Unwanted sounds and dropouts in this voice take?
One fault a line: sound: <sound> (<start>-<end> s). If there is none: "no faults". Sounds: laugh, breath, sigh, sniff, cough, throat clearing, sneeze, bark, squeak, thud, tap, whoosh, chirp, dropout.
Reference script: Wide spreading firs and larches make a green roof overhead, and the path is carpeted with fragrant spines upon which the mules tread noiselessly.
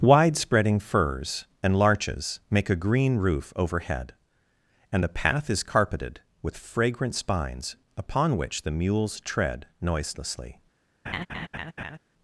sound: laugh (11.1-12.0 s)